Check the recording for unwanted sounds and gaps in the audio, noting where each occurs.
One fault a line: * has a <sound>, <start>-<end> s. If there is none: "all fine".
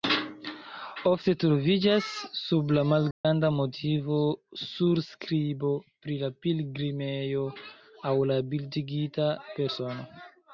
* has a dropout, 3.1-3.2 s